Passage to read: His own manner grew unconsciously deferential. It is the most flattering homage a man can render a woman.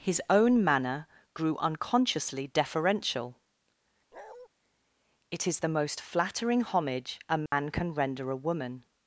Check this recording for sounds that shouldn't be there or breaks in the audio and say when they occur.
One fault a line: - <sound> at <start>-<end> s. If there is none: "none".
- bark at 4.1-4.5 s
- dropout at 7.5-7.5 s